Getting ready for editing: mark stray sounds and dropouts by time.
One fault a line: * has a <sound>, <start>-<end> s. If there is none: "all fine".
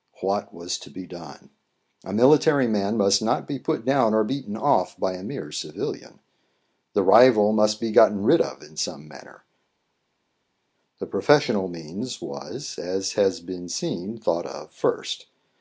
all fine